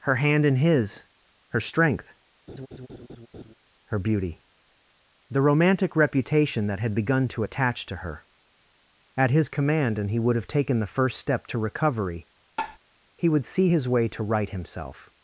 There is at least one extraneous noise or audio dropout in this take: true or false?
true